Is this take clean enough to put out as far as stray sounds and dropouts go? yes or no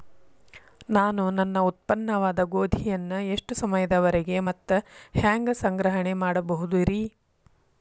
yes